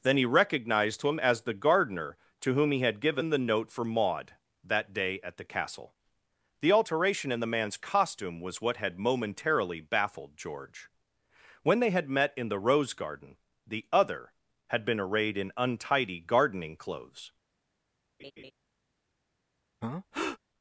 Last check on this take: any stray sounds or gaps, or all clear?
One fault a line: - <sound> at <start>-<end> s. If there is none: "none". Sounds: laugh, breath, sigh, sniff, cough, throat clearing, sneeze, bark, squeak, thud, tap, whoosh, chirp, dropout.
- laugh at 18.2-18.5 s
- breath at 19.8-20.4 s